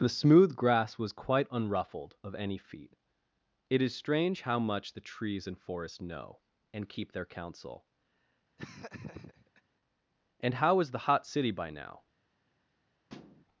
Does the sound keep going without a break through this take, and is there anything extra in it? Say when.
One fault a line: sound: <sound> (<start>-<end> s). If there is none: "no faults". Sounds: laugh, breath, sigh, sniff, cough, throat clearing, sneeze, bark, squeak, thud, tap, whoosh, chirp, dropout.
sound: laugh (8.6-9.6 s)
sound: thud (13.1-13.4 s)